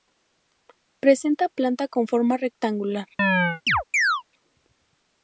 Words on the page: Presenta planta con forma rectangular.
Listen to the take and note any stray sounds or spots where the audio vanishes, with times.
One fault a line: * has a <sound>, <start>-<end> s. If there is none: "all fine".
* has a chirp, 3.2-4.2 s